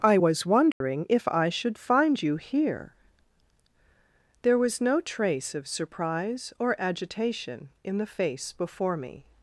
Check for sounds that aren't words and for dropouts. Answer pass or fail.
fail